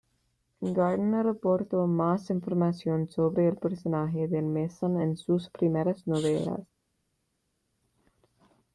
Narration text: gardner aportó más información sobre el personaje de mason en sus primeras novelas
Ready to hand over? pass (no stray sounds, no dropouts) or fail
pass